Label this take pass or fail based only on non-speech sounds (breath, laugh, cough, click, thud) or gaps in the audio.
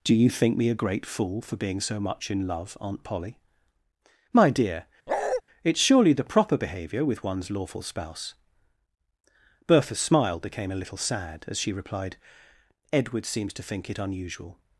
fail